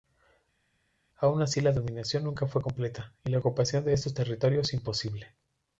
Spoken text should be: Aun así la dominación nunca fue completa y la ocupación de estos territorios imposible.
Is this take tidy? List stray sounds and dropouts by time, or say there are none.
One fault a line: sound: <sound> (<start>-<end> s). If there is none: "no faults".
no faults